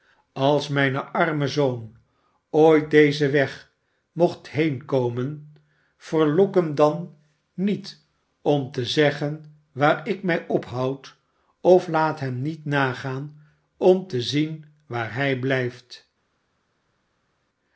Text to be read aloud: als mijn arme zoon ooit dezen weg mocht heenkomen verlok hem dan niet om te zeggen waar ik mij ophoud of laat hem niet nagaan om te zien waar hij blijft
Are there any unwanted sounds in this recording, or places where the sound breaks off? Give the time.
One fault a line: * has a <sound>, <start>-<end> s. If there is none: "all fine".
all fine